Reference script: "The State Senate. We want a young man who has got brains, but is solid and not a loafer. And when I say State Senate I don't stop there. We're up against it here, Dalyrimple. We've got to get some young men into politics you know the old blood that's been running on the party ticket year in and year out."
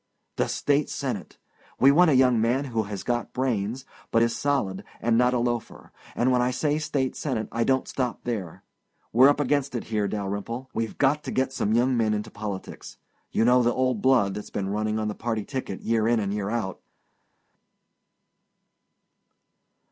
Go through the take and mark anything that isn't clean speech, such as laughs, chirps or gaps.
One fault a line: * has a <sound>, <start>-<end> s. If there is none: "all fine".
all fine